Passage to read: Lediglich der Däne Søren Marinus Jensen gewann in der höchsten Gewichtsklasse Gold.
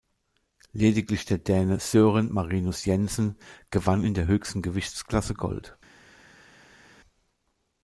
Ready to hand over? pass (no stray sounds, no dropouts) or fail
pass